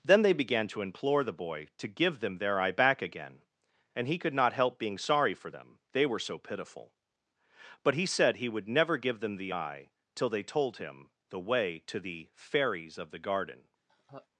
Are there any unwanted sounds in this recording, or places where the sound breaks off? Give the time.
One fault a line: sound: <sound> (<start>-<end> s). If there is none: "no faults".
sound: laugh (13.9-14.3 s)